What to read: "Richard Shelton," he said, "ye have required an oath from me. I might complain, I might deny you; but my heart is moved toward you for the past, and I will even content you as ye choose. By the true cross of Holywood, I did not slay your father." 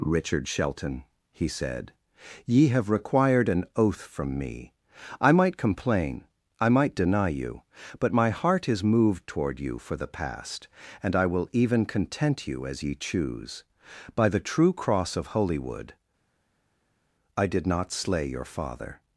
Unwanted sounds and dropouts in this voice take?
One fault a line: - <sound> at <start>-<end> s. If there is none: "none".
none